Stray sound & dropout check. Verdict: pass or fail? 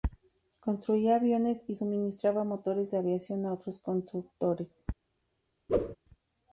fail